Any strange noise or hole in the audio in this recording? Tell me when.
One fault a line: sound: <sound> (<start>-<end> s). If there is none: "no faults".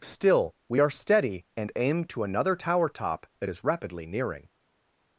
no faults